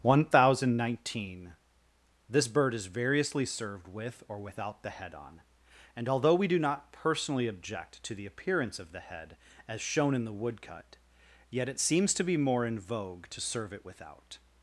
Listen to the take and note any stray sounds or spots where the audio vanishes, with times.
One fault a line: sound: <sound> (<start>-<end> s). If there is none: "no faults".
no faults